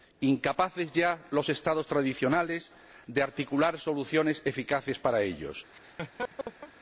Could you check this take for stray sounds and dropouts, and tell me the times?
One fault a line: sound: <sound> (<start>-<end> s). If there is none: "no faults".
sound: laugh (5.7-6.7 s)